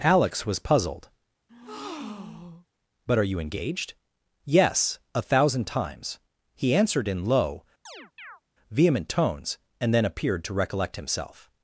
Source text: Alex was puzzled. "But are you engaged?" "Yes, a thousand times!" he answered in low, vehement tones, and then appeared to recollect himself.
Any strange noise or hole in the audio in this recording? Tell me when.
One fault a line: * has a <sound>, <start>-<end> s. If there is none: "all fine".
* has a breath, 1.5-2.7 s
* has a chirp, 7.9-8.4 s